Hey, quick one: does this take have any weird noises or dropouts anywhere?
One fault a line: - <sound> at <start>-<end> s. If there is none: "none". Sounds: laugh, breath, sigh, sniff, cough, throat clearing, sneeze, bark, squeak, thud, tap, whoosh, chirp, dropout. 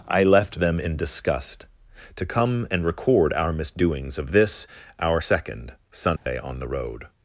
- dropout at 6.2-6.3 s